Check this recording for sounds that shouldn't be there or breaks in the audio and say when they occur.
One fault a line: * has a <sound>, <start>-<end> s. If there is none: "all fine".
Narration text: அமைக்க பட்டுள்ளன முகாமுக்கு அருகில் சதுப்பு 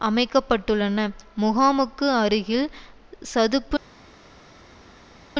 all fine